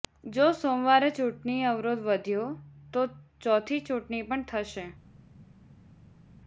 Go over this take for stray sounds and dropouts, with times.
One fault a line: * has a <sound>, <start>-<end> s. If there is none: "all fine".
all fine